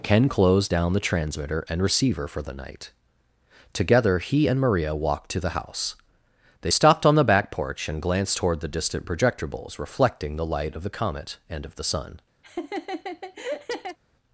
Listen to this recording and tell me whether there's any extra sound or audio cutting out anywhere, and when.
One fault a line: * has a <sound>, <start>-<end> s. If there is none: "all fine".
* has a laugh, 12.4-14.0 s